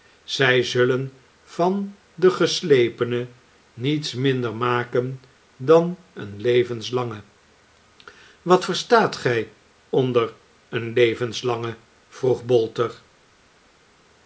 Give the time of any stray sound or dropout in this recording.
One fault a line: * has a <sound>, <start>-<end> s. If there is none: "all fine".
all fine